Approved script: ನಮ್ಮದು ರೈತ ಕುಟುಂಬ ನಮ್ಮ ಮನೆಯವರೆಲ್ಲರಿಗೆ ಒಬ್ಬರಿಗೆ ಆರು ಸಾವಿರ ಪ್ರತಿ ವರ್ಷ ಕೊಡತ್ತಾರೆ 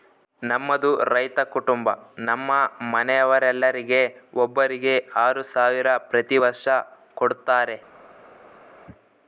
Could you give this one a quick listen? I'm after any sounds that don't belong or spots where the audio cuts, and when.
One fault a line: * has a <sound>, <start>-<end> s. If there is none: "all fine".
all fine